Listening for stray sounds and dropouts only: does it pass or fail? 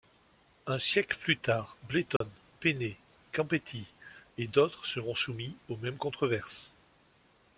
fail